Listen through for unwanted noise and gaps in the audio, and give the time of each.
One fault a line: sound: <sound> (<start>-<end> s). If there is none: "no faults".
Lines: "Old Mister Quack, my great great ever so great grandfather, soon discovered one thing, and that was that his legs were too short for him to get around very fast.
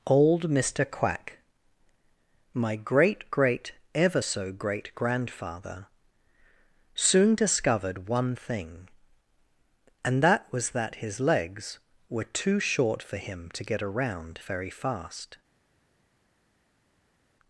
no faults